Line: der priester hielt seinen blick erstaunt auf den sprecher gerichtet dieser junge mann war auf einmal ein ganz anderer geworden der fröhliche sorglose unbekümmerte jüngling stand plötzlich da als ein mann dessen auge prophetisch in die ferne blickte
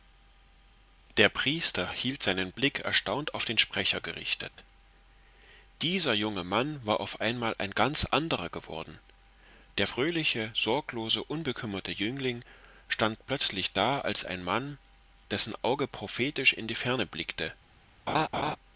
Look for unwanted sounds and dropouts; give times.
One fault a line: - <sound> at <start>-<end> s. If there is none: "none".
- dropout at 4.5-4.6 s
- laugh at 18.1-18.6 s